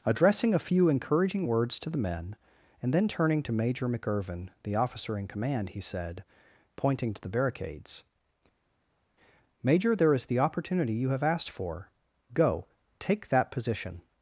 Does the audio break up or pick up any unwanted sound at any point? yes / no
no